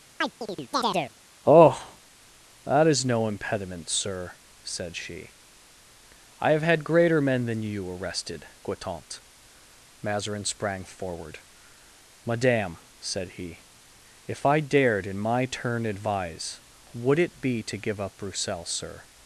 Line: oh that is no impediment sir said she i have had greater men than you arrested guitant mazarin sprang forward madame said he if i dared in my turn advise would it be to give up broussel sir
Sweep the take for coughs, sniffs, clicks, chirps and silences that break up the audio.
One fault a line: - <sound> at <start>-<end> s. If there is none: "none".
- chirp at 0.2-1.1 s